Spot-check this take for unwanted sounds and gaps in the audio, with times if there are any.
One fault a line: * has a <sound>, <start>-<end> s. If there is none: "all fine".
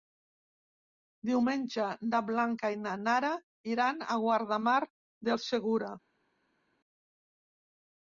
all fine